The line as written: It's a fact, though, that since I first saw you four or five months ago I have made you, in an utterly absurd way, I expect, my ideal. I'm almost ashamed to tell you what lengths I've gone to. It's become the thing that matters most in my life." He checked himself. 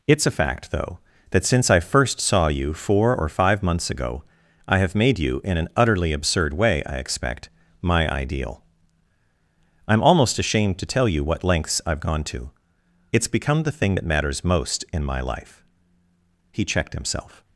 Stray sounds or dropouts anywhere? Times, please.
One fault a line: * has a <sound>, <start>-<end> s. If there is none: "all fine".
all fine